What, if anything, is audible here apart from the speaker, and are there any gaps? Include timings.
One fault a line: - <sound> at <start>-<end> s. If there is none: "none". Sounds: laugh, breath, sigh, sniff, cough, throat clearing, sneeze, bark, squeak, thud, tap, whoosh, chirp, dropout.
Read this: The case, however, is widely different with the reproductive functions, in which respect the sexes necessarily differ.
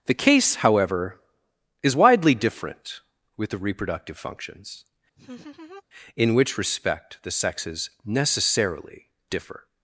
- laugh at 5.2-5.8 s